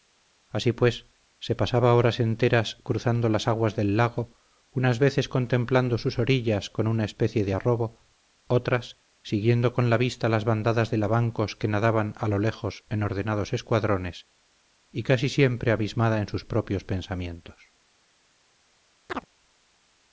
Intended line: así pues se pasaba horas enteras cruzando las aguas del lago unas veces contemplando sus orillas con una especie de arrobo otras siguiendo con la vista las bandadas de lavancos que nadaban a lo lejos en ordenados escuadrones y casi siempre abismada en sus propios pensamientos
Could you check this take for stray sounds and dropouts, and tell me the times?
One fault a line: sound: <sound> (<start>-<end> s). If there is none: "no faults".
sound: chirp (19.1-19.3 s)